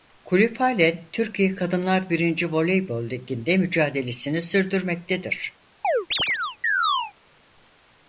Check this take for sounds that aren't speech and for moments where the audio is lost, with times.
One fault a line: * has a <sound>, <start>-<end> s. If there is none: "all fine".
* has a chirp, 5.8-7.1 s